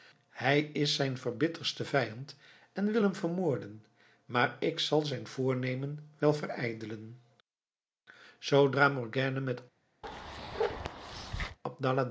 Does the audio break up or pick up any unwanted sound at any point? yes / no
yes